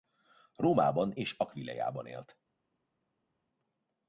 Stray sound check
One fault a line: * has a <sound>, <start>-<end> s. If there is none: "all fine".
all fine